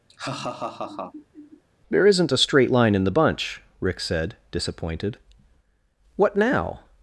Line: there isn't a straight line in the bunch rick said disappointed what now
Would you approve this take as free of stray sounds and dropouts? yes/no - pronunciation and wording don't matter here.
no